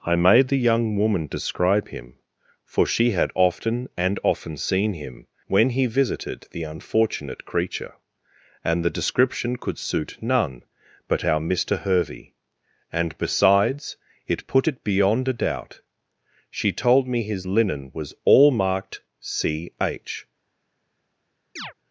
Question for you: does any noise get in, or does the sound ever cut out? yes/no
yes